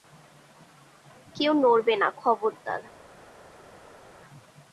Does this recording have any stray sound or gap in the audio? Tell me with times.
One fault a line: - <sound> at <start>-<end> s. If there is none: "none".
none